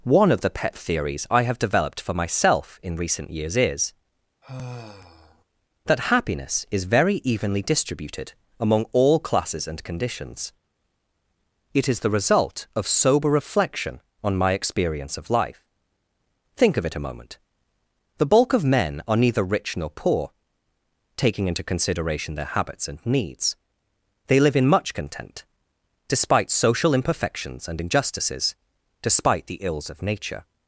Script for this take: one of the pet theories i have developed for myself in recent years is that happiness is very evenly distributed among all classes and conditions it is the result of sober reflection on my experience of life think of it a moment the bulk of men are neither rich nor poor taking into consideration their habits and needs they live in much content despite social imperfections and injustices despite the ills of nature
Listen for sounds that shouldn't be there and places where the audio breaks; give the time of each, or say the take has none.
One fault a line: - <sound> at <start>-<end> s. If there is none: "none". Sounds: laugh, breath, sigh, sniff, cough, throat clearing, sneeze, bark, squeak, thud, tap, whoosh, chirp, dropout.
- sigh at 4.4-5.4 s